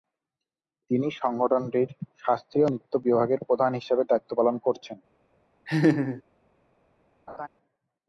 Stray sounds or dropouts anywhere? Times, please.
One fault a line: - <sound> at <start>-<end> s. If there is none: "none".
- laugh at 5.7-6.2 s
- laugh at 7.3-7.5 s